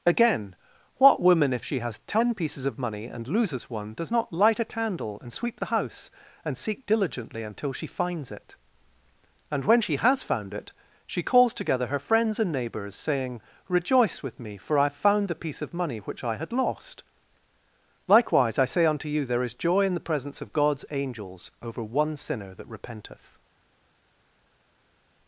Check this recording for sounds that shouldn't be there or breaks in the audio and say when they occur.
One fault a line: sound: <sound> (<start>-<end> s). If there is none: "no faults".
no faults